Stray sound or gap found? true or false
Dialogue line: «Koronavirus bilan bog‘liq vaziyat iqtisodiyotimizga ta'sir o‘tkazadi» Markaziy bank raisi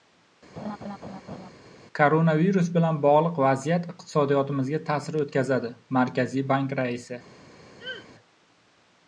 true